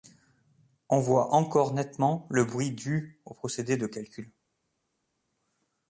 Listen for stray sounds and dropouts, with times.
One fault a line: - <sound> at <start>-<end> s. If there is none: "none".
none